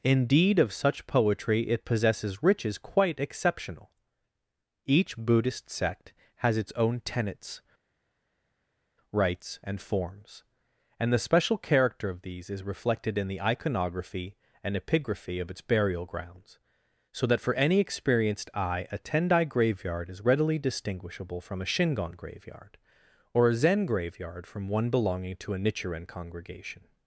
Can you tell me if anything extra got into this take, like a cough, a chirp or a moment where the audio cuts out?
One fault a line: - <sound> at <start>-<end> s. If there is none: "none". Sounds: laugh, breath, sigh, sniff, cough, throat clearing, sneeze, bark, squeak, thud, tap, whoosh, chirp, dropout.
none